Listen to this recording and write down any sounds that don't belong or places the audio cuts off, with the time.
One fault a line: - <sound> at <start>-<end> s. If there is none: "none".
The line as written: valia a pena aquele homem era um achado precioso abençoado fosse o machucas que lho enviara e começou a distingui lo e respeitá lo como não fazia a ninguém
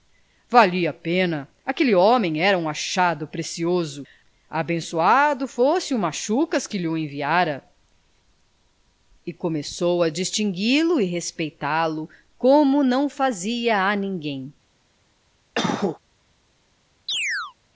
- cough at 15.5-16.0 s
- chirp at 17.1-17.5 s